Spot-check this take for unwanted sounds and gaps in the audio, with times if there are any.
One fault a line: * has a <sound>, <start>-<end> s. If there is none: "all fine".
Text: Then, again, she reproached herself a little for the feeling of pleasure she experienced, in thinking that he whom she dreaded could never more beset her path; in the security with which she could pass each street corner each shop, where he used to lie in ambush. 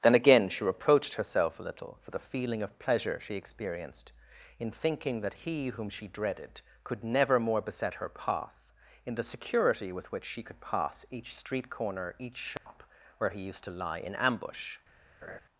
* has a dropout, 12.6-12.7 s
* has a laugh, 15.2-15.4 s